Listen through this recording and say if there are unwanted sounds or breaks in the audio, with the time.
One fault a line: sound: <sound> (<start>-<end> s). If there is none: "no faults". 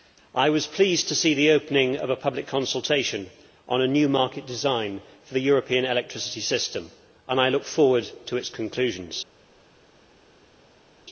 no faults